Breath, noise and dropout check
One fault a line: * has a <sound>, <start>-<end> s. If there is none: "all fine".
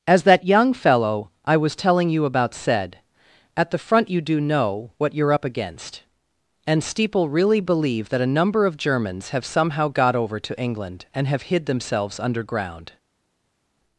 all fine